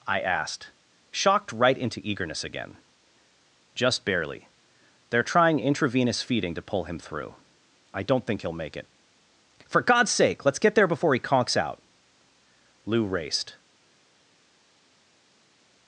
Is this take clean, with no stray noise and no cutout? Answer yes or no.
yes